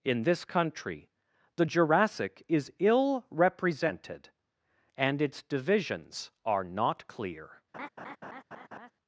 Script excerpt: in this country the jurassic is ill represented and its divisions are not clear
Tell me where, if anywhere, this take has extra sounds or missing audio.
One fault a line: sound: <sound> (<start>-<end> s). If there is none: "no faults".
sound: laugh (7.7-8.9 s)